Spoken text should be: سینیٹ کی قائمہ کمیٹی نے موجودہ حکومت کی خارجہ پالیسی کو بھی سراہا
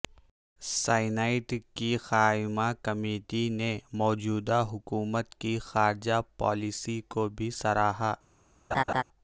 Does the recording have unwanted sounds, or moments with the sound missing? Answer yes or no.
yes